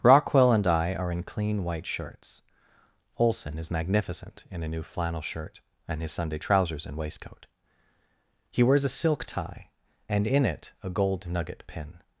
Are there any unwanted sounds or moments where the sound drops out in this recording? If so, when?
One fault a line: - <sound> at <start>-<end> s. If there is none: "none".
none